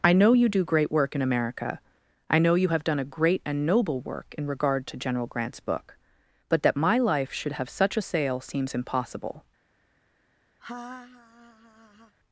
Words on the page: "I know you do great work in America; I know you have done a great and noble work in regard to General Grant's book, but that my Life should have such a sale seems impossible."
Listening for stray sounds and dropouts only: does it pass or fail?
fail